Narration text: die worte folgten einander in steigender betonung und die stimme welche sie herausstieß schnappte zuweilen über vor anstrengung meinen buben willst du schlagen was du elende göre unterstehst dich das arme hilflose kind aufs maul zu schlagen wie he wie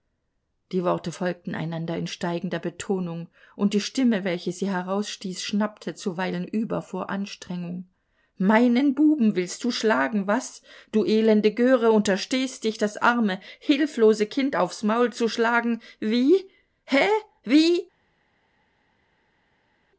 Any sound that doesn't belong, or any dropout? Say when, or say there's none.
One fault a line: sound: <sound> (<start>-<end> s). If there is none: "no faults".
no faults